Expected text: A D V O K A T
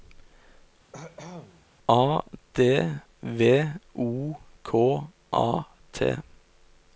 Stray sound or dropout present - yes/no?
yes